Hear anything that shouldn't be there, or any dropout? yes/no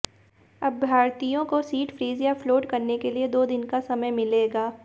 no